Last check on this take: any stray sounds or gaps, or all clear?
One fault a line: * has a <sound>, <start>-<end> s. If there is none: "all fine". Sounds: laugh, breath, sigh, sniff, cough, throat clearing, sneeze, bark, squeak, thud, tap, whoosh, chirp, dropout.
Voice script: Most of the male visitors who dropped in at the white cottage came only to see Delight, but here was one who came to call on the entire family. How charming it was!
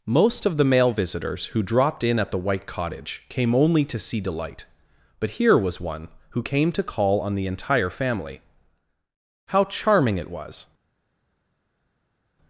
all fine